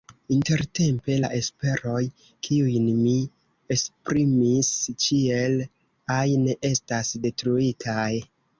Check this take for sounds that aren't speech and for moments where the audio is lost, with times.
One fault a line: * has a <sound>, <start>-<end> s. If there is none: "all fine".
all fine